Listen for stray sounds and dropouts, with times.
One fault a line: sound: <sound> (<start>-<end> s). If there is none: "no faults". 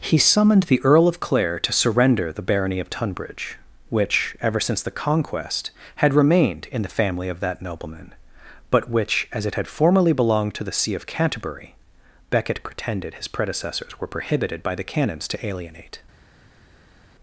no faults